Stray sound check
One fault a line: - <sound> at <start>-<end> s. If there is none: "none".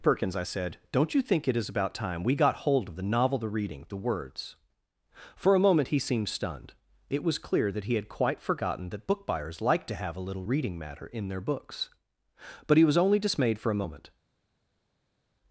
none